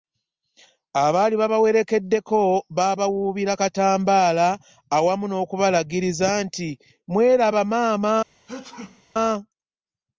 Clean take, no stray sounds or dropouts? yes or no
no